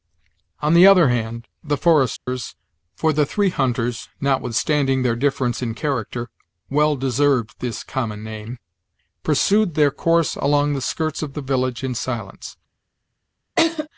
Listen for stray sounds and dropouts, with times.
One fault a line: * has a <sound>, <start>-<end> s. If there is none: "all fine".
* has a dropout, 2.2-2.3 s
* has a laugh, 13.6-13.9 s